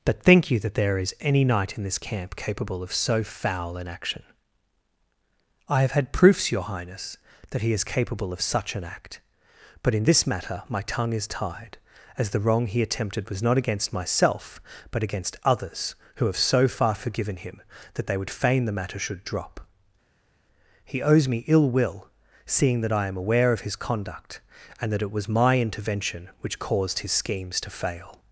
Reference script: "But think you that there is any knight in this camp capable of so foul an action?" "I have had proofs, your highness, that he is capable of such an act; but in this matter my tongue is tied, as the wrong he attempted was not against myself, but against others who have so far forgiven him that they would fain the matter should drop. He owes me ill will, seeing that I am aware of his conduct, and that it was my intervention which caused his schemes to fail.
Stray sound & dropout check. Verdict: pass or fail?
pass